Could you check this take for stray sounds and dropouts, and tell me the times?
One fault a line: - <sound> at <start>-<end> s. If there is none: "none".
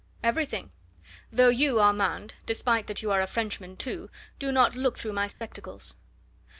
- dropout at 5.3-5.4 s